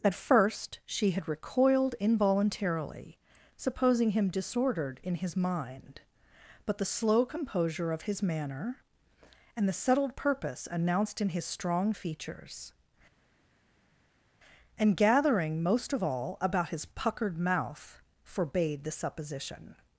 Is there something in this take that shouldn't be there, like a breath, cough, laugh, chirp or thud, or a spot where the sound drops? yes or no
no